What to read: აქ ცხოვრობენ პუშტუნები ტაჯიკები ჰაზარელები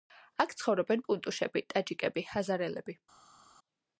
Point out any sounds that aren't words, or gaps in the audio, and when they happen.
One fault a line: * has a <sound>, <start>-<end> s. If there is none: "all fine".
all fine